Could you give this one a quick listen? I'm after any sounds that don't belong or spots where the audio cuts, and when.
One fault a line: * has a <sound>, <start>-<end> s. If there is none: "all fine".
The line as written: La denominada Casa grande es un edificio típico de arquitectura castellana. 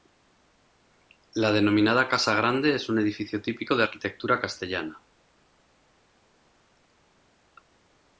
all fine